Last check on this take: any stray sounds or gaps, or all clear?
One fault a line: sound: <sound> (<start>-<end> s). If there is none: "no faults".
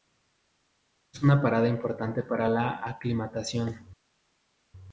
no faults